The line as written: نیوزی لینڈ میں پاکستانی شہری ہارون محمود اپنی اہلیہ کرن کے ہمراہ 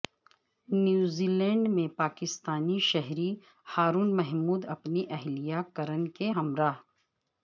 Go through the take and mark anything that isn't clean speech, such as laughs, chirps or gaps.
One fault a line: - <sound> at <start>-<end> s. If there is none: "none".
none